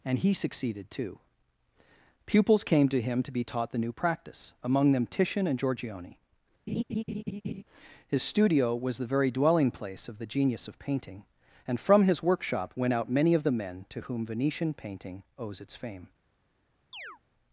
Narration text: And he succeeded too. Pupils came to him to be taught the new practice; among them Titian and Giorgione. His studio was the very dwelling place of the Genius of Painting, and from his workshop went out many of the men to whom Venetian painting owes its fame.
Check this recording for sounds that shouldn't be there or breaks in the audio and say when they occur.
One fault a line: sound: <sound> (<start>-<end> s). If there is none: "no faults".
sound: laugh (6.7-7.6 s)
sound: chirp (16.9-17.2 s)